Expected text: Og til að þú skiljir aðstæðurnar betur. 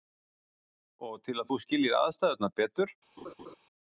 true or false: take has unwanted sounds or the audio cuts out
true